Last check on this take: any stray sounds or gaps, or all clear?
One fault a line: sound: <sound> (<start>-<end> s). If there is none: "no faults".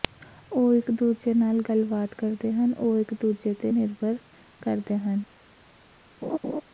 sound: laugh (6.2-6.6 s)